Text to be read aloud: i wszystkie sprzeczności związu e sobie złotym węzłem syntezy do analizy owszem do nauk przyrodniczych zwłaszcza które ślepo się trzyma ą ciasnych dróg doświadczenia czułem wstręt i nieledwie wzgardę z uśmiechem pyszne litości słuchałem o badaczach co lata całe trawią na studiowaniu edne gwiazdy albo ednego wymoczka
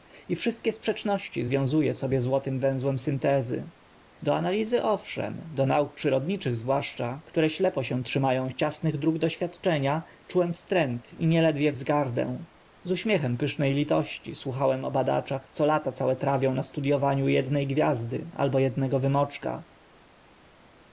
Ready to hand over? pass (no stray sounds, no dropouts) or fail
pass